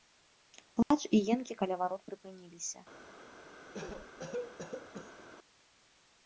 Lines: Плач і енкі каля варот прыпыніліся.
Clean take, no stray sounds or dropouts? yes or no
no